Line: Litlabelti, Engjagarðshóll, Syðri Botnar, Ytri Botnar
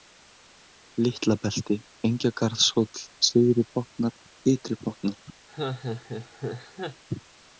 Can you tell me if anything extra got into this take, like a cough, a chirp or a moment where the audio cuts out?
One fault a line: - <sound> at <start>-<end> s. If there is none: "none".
- laugh at 5.5-7.0 s